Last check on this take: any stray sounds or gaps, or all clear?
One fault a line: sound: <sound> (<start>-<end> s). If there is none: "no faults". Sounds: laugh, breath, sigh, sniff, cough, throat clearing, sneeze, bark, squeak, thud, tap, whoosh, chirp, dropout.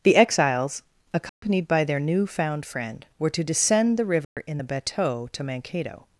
sound: dropout (1.3-1.4 s)
sound: dropout (4.2-4.4 s)